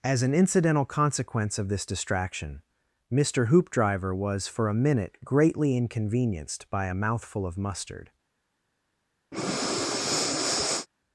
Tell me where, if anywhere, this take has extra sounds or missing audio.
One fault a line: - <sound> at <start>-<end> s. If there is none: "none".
- breath at 9.3-10.9 s